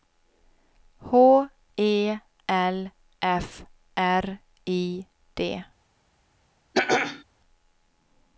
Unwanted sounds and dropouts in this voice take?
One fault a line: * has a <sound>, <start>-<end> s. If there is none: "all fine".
* has a throat clearing, 6.7-7.2 s